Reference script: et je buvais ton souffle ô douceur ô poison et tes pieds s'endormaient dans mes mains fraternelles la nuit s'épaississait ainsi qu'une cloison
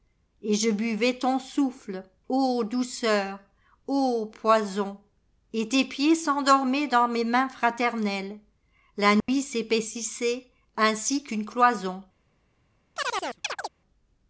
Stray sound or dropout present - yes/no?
yes